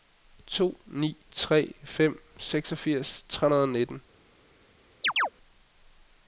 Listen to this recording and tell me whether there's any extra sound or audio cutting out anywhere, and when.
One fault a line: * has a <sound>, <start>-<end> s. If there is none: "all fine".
* has a chirp, 5.0-5.3 s